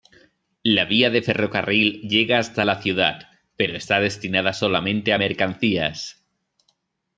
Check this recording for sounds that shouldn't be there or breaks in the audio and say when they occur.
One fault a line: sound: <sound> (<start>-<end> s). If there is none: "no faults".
no faults